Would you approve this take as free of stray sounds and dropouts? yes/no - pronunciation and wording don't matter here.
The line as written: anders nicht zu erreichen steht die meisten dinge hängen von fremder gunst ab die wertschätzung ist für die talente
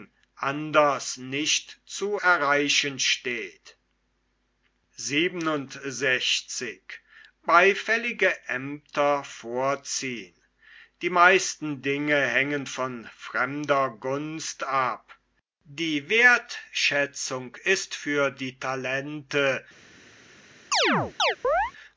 no